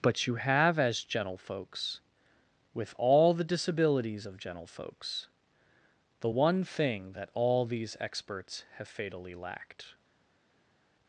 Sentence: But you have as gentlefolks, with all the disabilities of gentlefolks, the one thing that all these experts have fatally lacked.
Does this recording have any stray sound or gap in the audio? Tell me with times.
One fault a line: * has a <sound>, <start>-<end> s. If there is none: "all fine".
all fine